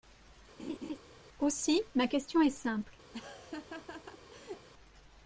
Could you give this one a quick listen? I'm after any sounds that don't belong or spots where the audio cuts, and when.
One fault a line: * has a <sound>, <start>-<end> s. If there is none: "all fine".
* has a laugh, 0.6-1.0 s
* has a laugh, 3.1-4.7 s